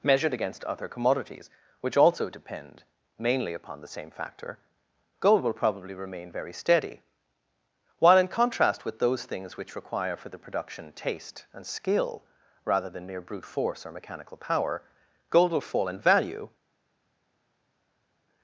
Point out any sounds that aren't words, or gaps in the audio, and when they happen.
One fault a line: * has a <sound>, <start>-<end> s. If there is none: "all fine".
all fine